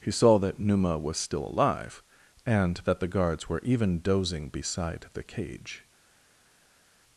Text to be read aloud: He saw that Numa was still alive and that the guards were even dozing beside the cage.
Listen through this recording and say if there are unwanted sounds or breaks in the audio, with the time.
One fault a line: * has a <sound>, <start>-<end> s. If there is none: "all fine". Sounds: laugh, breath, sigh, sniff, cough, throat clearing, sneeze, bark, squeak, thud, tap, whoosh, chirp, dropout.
all fine